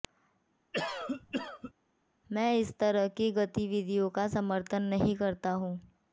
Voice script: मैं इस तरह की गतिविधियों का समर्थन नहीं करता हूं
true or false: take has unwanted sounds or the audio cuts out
true